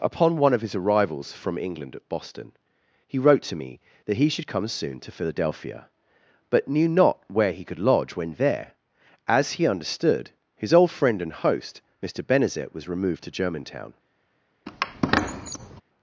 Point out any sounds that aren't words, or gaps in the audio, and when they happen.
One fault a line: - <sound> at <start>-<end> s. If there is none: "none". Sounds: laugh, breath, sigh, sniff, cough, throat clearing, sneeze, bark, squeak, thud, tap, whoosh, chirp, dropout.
- squeak at 14.7-15.8 s